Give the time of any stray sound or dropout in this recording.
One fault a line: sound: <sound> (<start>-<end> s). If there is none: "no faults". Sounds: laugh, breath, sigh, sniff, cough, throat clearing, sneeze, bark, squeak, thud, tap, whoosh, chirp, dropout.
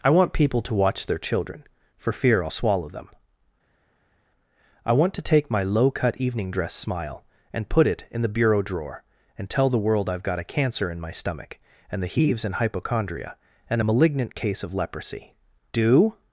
no faults